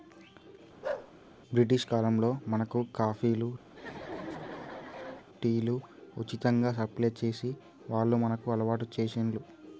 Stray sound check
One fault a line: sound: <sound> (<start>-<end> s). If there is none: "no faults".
sound: bark (0.8-1.1 s)
sound: laugh (3.7-5.3 s)